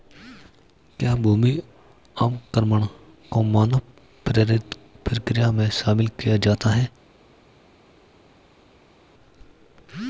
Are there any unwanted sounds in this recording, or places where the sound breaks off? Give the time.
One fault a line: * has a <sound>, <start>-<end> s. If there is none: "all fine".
all fine